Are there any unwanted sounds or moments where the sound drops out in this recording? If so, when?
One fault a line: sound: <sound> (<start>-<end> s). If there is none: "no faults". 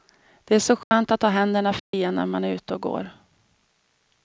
sound: dropout (0.8-0.9 s)
sound: dropout (1.8-1.9 s)